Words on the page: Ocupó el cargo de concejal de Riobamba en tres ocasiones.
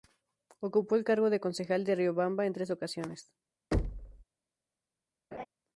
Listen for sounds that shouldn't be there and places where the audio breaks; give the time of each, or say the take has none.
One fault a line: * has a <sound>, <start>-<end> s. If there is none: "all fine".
* has a thud, 3.7-4.2 s
* has a laugh, 5.3-5.5 s